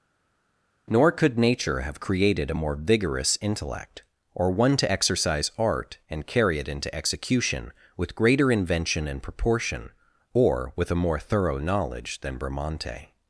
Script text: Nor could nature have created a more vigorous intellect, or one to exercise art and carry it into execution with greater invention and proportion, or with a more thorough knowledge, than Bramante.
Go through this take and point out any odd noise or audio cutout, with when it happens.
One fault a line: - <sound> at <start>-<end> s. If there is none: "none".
none